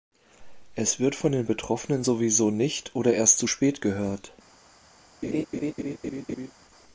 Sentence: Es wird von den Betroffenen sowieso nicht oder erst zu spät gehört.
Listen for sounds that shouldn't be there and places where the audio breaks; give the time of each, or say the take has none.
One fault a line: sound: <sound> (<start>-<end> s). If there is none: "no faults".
sound: laugh (5.2-6.5 s)